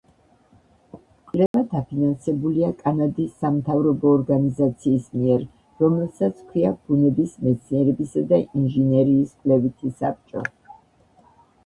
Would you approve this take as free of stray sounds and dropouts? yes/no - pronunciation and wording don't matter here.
no